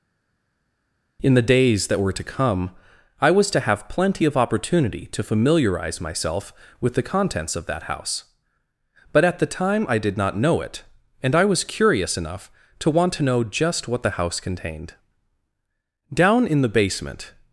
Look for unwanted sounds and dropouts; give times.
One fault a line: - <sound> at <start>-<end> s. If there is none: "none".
none